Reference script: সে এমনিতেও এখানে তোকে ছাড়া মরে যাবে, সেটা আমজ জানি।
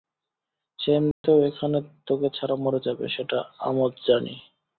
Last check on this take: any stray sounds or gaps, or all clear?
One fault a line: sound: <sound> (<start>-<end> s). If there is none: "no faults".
sound: dropout (1.1-1.2 s)